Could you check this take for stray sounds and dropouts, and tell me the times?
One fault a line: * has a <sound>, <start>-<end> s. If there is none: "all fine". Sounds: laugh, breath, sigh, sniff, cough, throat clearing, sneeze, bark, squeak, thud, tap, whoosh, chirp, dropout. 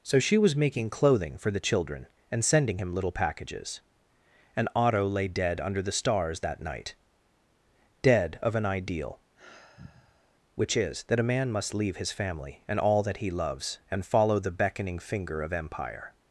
* has a sigh, 9.3-10.4 s